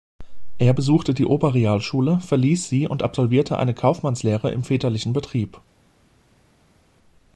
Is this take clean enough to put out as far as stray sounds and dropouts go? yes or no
yes